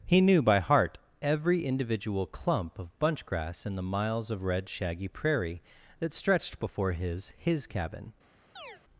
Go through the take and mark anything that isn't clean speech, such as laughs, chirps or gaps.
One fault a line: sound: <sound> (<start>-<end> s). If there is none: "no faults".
sound: chirp (8.6-8.8 s)